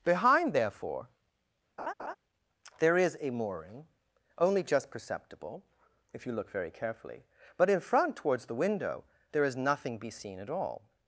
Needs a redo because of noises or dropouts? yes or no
yes